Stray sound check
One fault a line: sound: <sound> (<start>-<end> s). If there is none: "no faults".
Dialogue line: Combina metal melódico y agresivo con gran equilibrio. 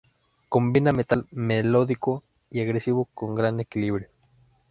no faults